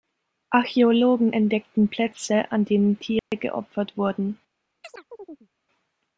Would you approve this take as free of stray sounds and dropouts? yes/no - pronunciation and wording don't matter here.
no